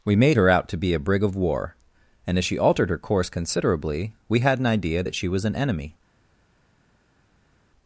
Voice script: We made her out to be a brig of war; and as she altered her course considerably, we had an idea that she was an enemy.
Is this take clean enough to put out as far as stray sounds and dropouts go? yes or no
yes